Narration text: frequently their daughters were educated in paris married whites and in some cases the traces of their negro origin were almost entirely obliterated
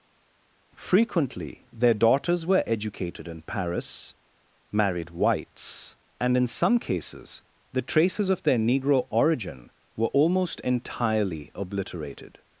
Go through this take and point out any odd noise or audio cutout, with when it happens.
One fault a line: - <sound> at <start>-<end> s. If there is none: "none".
none